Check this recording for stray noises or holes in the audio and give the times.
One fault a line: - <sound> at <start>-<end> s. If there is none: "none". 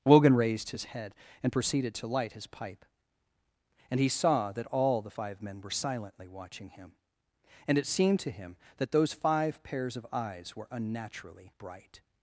none